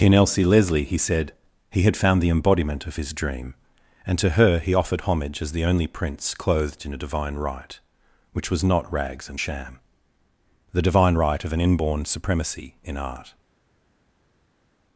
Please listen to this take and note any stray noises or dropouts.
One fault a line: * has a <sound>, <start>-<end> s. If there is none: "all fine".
all fine